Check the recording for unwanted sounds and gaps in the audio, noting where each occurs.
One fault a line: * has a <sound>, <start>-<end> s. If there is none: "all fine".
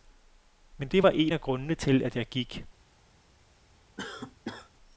* has a cough, 4.0-4.7 s